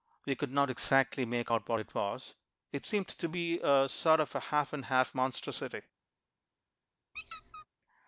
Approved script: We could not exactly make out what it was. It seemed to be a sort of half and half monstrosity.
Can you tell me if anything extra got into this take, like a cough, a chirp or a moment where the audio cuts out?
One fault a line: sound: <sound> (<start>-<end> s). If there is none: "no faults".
sound: squeak (7.1-7.7 s)